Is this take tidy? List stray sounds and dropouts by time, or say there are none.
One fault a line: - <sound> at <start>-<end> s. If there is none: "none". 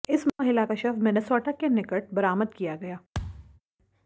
- thud at 3.1-3.6 s